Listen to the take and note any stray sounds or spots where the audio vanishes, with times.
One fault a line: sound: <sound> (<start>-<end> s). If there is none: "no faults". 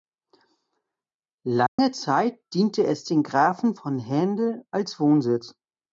sound: dropout (1.7-1.8 s)